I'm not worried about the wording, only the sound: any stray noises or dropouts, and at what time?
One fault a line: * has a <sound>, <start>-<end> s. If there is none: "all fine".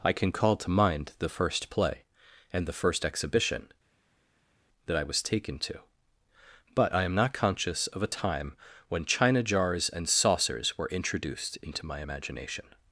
all fine